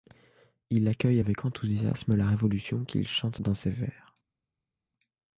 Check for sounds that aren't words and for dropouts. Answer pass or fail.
pass